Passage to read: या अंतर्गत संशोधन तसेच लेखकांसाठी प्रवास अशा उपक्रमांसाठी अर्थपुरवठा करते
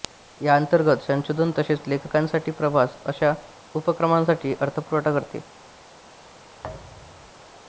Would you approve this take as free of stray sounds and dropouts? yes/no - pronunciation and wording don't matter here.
no